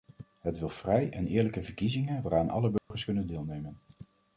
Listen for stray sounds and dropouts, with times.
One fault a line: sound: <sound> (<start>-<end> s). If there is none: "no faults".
sound: dropout (2.8-2.9 s)